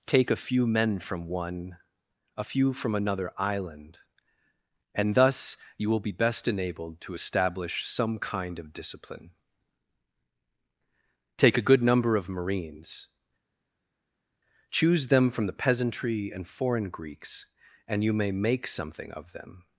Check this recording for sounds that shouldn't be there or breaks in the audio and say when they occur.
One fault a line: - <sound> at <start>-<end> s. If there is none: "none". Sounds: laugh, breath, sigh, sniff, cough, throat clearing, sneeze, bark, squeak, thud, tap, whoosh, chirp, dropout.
none